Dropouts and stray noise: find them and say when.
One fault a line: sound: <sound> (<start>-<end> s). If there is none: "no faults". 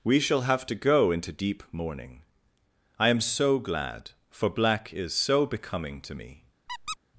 sound: squeak (6.7-7.0 s)